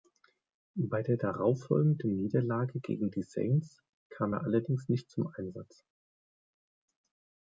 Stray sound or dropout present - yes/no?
no